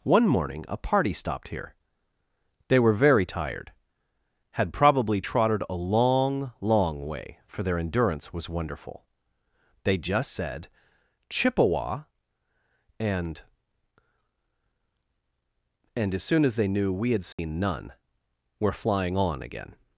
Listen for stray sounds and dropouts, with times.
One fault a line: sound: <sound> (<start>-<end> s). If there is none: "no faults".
sound: dropout (17.3-17.4 s)